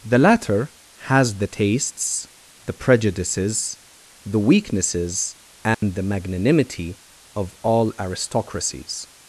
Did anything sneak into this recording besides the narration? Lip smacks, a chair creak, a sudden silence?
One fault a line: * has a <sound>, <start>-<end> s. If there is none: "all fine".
* has a dropout, 5.7-5.8 s